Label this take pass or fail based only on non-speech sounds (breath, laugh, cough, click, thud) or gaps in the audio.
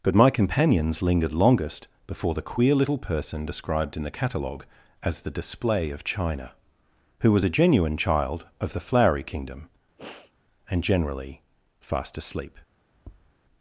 fail